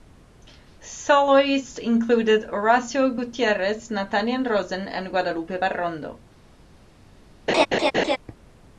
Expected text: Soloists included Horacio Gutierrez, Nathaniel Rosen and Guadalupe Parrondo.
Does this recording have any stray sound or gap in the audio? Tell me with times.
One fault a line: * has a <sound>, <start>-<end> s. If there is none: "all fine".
* has a laugh, 7.5-8.2 s